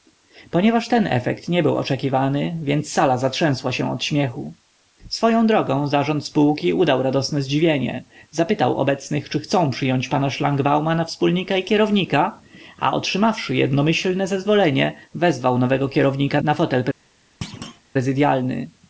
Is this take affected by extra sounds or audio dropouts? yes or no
yes